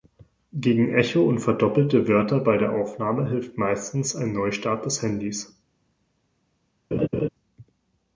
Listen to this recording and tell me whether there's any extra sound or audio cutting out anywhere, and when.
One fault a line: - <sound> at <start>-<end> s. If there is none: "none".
- laugh at 6.9-7.3 s